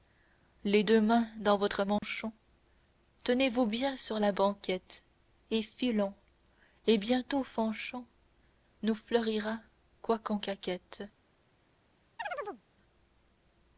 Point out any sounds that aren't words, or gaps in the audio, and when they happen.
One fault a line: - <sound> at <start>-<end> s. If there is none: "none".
- dropout at 2.0-2.0 s
- chirp at 12.2-12.6 s